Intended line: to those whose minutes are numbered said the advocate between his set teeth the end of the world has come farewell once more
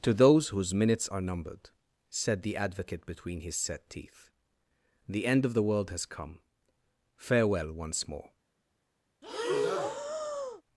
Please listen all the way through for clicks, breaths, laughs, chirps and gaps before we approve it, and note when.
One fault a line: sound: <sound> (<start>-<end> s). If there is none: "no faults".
sound: breath (9.2-10.6 s)